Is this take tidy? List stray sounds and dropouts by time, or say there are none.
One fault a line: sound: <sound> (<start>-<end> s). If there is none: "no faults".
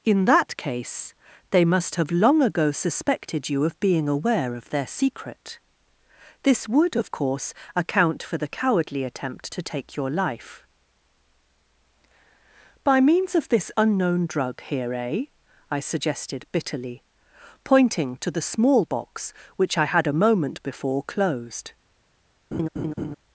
sound: laugh (22.5-23.2 s)